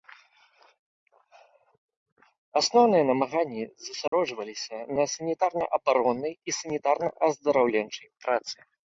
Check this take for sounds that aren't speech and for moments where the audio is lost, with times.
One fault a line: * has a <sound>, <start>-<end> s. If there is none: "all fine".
* has a dropout, 4.1-4.1 s